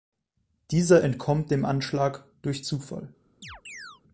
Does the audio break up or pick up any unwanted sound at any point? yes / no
yes